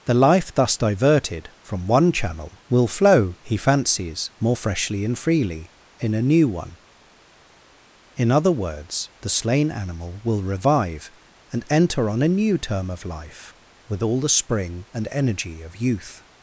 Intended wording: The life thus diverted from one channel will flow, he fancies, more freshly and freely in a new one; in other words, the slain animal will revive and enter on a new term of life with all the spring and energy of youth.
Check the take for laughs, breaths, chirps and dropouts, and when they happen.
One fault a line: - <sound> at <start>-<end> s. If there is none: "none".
none